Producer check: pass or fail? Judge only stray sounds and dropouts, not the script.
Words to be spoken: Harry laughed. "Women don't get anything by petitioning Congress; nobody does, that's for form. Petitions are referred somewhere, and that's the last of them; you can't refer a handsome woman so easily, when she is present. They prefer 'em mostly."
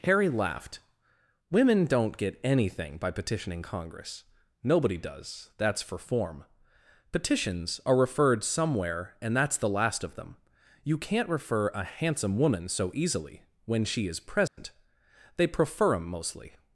fail